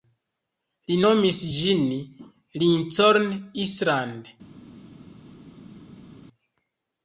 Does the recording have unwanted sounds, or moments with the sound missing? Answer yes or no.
no